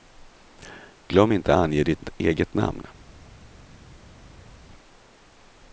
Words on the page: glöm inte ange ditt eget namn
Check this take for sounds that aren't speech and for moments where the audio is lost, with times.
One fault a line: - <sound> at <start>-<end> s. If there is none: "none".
none